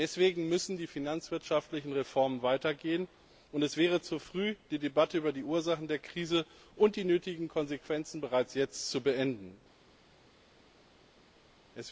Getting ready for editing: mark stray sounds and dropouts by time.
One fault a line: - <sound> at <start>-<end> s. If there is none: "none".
none